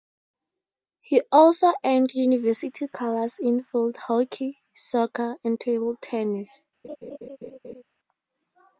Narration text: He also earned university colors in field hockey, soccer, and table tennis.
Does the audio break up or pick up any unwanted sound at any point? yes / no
yes